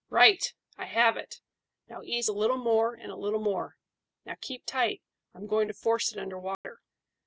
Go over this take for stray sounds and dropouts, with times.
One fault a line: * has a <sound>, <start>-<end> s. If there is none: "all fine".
* has a dropout, 6.5-6.6 s